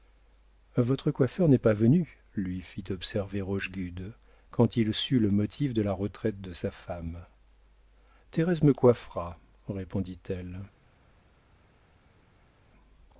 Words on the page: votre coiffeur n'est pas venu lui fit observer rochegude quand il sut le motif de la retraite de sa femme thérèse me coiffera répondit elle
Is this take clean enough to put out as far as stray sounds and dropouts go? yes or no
yes